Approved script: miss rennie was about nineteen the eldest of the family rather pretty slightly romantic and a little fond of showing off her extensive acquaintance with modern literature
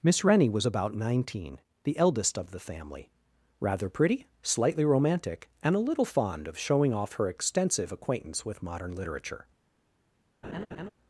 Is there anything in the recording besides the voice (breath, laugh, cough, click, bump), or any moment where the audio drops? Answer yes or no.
yes